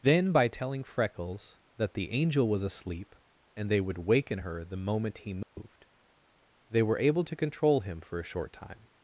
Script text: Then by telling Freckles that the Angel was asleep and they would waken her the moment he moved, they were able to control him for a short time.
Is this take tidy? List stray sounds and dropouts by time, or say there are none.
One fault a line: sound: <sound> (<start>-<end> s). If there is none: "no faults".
sound: dropout (5.4-5.6 s)